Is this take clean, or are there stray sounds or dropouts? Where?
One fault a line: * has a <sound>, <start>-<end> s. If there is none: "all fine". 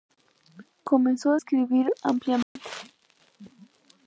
* has a dropout, 2.4-2.6 s